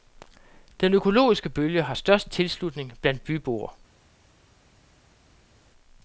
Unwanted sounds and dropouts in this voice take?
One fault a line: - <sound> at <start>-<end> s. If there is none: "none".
none